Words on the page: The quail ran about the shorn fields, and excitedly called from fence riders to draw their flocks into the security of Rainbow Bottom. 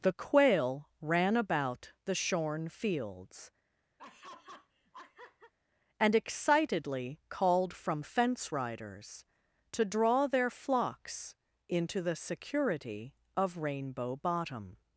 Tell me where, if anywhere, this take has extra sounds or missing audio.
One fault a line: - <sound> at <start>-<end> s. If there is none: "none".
- laugh at 4.0-5.5 s